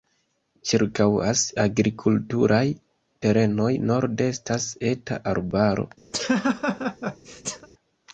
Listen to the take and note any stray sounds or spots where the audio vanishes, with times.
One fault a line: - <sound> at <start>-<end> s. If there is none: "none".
- laugh at 6.1-7.7 s